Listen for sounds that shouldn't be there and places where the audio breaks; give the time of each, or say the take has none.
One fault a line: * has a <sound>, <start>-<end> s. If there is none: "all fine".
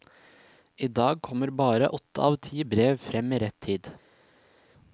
all fine